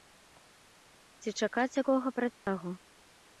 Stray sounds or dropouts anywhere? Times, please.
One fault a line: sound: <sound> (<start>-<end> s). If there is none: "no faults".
sound: dropout (2.3-2.5 s)